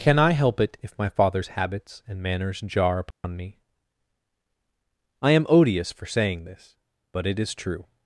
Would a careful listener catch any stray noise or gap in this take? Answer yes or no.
yes